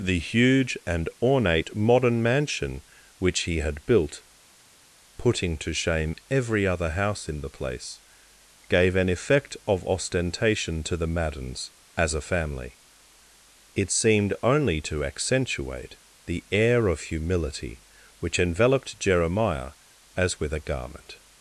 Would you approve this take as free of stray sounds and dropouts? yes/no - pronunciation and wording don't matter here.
yes